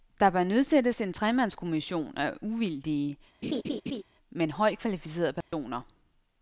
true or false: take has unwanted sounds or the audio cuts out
true